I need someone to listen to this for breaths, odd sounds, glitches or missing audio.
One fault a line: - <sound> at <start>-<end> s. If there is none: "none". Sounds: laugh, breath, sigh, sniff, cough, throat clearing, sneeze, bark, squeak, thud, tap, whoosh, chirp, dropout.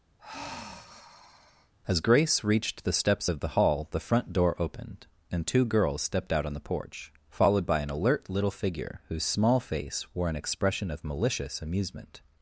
- sigh at 0.2-1.7 s